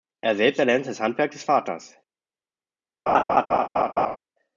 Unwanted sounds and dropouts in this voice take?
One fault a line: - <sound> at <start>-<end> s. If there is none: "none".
- laugh at 3.1-4.2 s